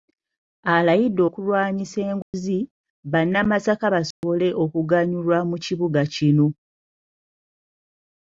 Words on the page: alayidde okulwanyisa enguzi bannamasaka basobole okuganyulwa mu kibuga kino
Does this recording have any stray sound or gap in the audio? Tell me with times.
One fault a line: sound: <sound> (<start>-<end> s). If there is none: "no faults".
sound: dropout (2.2-2.3 s)
sound: dropout (4.1-4.2 s)